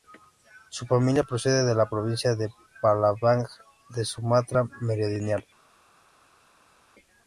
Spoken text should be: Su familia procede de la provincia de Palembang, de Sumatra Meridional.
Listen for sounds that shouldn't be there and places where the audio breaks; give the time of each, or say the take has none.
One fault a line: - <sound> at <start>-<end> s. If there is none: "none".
none